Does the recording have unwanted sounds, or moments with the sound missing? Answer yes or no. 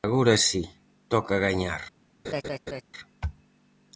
yes